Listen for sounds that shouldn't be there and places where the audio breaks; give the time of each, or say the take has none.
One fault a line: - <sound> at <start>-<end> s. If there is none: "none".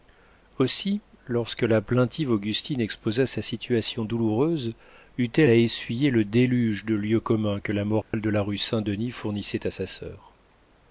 - dropout at 8.0-8.1 s